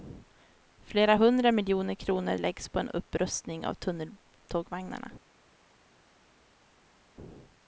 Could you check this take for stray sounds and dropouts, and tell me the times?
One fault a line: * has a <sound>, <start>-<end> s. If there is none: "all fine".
all fine